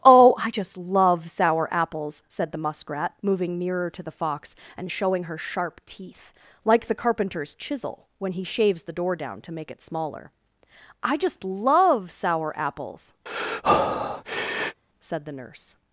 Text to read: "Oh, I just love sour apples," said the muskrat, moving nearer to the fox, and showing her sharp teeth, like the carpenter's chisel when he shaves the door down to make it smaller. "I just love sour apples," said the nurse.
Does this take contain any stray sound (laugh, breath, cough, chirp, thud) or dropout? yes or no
yes